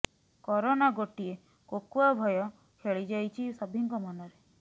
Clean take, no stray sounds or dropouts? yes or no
yes